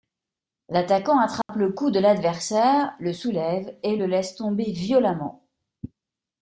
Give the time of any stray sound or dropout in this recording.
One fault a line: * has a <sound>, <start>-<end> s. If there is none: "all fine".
* has a dropout, 1.4-1.5 s